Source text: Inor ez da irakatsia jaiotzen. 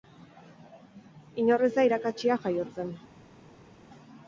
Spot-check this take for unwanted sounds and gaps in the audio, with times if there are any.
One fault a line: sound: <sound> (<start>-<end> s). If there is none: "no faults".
no faults